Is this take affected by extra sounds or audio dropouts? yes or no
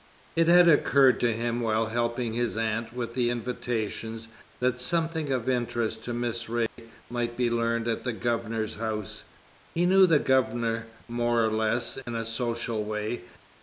yes